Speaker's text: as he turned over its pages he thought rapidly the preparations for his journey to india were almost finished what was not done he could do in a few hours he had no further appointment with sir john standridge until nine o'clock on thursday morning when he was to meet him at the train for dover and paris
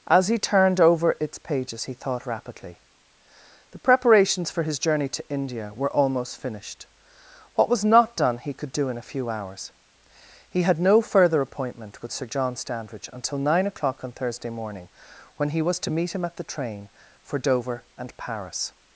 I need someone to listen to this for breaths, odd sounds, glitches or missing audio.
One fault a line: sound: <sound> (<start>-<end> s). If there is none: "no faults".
no faults